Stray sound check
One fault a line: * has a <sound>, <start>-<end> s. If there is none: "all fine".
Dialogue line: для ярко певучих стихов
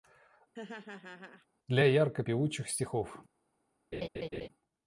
* has a laugh, 0.5-1.5 s
* has a laugh, 3.9-4.5 s